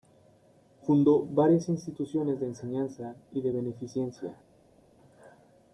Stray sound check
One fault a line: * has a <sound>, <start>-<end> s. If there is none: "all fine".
all fine